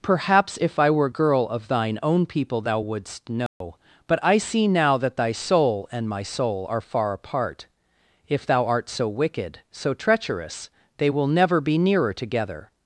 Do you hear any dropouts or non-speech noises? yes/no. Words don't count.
yes